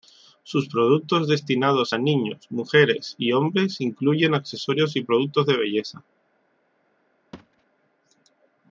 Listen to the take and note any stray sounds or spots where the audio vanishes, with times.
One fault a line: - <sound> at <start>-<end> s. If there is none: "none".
- thud at 7.3-7.6 s